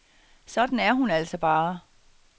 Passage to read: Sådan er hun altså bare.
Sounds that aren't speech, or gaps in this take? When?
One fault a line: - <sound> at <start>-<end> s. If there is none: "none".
none